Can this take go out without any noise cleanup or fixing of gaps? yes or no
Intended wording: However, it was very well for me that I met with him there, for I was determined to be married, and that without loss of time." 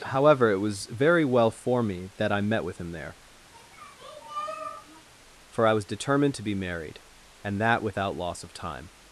no